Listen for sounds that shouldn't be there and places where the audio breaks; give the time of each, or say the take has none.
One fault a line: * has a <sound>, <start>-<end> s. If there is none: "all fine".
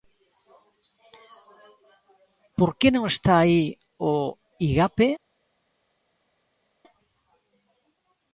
all fine